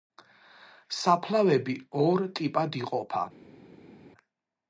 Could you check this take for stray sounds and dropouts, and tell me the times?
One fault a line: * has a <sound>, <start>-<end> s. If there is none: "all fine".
all fine